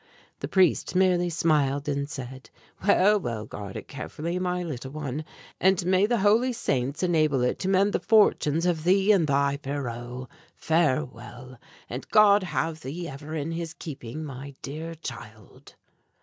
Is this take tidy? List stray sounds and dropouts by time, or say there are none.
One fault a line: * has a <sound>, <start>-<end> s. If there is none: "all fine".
all fine